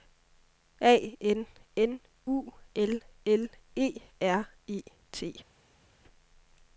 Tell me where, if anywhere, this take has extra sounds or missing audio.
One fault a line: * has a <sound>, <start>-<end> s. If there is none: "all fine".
all fine